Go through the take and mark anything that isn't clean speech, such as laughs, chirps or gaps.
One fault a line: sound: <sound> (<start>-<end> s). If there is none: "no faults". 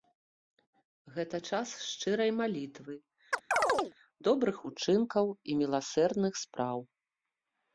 sound: chirp (3.3-3.9 s)